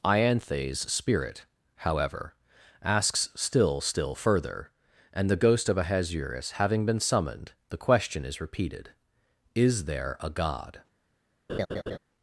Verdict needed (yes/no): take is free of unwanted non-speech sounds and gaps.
no